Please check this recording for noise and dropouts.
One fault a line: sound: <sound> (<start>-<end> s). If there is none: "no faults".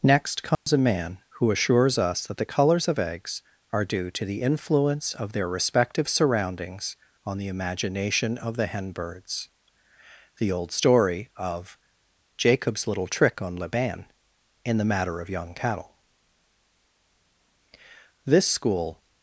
sound: dropout (0.5-0.7 s)